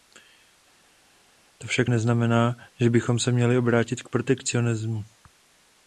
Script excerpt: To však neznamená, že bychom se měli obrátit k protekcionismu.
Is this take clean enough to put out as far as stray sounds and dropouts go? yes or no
yes